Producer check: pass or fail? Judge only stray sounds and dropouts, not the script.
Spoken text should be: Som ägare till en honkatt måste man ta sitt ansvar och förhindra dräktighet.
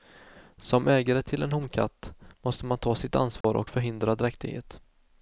fail